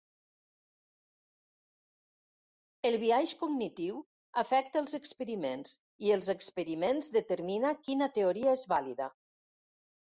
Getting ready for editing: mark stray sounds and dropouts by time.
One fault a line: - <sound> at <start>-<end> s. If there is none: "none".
none